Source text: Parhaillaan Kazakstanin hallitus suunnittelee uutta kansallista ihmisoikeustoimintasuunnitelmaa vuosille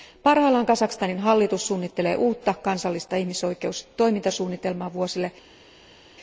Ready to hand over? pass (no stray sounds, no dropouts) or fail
pass